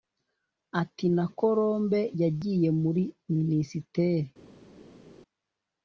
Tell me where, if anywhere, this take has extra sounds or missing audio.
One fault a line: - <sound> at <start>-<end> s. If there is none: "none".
none